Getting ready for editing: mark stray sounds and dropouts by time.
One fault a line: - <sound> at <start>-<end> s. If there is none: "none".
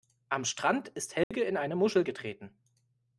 - dropout at 1.2-1.3 s